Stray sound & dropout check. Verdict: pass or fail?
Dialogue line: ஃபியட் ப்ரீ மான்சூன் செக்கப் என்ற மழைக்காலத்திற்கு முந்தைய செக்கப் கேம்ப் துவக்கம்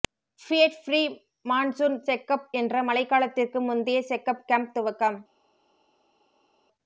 pass